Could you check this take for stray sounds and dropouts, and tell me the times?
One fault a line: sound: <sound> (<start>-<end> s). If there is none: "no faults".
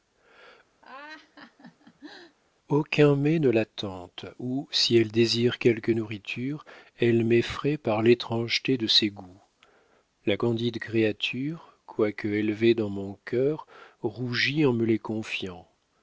sound: laugh (0.8-2.4 s)